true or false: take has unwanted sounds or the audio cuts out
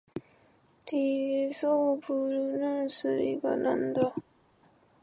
false